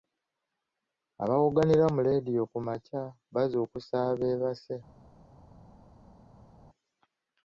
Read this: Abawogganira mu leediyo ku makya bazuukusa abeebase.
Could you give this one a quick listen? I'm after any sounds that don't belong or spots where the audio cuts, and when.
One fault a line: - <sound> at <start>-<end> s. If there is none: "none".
none